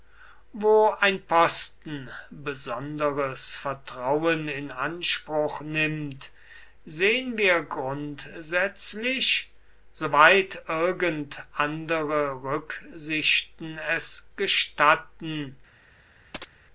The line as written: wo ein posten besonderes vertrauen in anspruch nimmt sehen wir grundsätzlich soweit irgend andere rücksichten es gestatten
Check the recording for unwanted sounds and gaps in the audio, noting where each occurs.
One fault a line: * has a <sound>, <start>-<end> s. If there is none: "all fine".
* has a chirp, 16.3-16.5 s